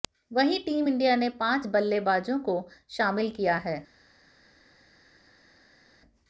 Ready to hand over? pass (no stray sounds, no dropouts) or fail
pass